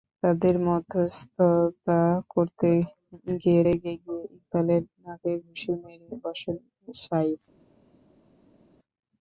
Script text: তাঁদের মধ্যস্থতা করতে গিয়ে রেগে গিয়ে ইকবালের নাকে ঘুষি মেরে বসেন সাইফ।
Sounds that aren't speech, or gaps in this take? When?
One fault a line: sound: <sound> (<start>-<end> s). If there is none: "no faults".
no faults